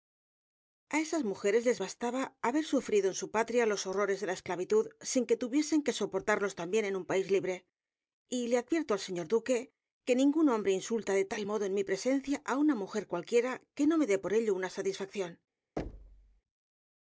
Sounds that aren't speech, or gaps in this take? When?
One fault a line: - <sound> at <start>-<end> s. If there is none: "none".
- thud at 15.8-16.4 s